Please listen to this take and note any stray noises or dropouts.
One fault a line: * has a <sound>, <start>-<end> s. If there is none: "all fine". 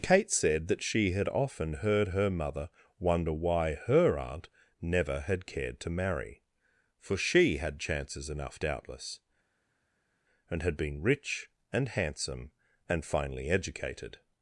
all fine